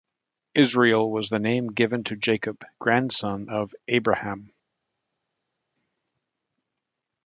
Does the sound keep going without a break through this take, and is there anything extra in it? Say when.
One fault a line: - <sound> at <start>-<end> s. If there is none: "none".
none